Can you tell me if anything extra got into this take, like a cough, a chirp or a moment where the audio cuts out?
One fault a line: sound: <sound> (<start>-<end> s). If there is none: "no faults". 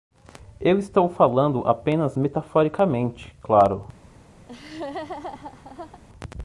sound: laugh (4.5-6.0 s)